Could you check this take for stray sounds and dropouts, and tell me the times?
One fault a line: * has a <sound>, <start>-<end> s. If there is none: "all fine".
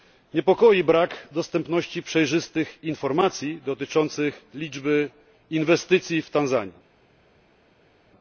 all fine